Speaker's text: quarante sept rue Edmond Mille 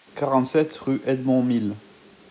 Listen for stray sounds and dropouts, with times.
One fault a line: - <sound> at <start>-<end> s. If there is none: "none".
none